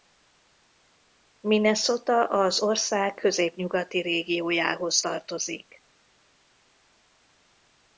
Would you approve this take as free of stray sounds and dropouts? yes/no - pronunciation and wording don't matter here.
yes